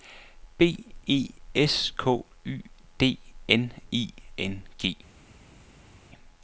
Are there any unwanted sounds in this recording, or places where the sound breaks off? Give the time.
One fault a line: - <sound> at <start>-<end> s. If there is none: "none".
none